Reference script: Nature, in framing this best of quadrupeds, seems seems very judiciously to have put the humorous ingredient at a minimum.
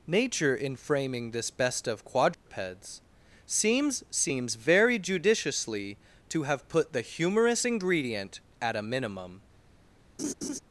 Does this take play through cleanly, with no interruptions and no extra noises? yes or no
no